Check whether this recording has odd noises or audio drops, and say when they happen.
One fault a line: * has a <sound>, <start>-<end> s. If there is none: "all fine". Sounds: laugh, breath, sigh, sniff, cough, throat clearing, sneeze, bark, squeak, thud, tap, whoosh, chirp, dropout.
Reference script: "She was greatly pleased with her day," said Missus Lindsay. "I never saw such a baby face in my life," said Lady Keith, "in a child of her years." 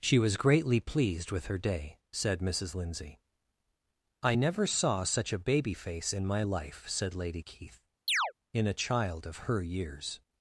* has a chirp, 8.1-8.3 s